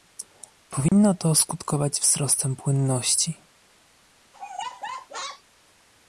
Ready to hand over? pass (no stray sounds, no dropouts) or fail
fail